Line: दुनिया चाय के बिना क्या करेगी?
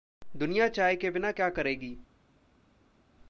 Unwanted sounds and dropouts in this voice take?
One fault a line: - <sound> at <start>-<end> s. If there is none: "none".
none